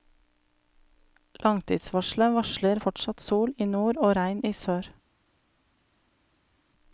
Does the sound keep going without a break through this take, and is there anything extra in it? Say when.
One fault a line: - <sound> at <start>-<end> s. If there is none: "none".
none